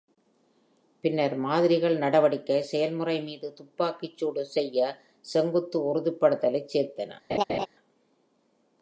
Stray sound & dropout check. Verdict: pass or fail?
fail